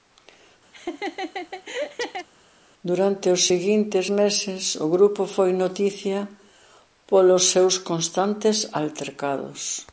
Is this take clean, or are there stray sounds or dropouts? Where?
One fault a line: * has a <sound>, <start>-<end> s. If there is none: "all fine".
* has a laugh, 0.7-2.3 s